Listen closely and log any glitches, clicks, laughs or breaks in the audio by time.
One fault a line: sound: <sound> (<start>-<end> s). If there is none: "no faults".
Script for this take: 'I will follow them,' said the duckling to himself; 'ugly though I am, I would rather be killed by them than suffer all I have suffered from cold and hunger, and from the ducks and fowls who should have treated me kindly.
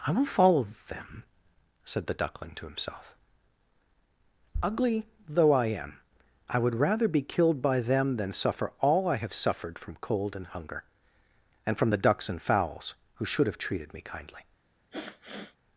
sound: sniff (14.9-15.6 s)